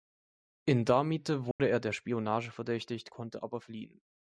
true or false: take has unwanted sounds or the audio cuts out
true